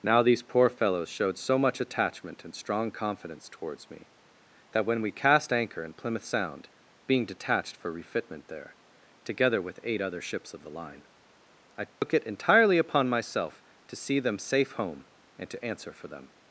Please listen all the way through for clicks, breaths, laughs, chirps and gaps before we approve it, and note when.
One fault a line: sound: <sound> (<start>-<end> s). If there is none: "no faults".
sound: dropout (11.9-12.0 s)